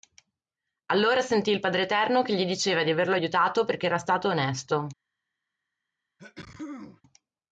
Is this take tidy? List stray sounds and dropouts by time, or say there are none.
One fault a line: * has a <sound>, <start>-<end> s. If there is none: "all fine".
* has a sneeze, 6.2-7.0 s